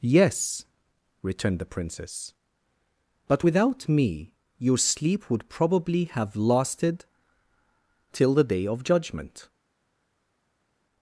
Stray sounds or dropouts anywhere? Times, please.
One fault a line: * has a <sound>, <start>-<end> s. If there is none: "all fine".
all fine